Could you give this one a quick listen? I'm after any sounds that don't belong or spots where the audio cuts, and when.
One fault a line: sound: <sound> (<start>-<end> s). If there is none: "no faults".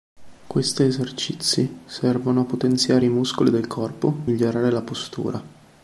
no faults